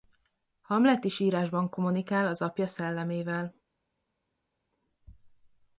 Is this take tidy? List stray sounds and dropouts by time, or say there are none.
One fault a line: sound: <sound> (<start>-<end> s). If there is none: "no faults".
no faults